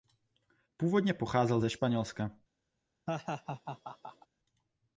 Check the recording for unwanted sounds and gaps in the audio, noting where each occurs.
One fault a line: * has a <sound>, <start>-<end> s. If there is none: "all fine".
* has a laugh, 3.1-4.3 s